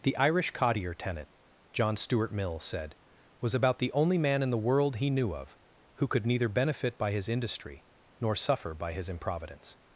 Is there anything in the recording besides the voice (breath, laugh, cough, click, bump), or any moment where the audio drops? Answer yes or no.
no